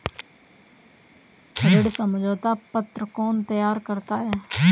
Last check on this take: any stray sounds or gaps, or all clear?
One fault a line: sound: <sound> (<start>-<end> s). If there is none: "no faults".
no faults